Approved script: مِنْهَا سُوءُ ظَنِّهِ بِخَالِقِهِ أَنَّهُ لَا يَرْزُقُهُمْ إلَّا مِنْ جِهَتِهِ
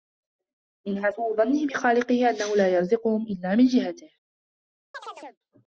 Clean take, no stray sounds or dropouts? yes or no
no